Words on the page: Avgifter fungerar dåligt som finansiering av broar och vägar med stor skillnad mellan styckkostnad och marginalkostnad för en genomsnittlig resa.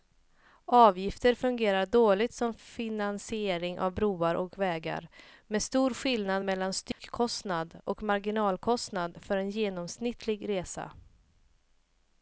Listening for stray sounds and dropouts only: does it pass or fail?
fail